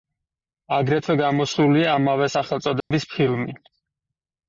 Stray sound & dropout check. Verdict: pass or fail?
fail